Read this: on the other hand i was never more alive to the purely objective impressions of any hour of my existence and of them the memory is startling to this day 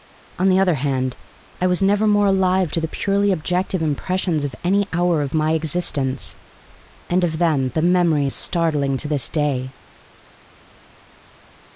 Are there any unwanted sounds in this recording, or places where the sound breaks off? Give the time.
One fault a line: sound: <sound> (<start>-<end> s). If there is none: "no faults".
no faults